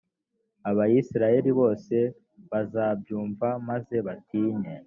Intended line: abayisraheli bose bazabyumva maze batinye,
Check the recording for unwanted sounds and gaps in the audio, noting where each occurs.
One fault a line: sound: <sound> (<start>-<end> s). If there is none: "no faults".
no faults